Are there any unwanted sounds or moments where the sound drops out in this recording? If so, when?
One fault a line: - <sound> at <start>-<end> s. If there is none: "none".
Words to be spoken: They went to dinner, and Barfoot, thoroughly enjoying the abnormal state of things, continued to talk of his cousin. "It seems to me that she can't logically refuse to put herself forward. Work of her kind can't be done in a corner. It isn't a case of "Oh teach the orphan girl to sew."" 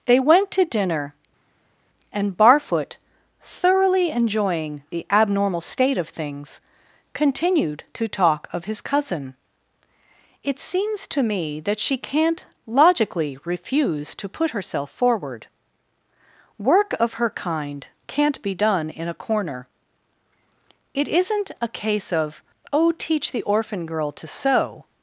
none